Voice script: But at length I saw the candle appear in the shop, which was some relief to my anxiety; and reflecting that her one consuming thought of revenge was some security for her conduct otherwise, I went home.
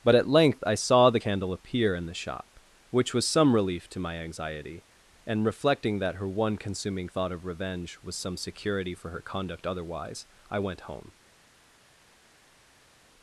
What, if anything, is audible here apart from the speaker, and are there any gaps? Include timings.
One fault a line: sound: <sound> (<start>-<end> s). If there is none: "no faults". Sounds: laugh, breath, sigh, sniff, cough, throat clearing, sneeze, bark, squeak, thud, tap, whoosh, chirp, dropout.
no faults